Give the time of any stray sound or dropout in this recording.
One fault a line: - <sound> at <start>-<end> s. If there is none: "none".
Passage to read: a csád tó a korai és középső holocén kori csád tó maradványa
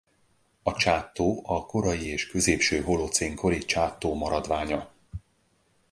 none